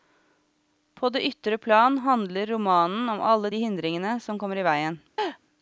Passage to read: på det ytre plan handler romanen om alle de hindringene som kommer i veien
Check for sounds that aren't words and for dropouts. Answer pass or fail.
fail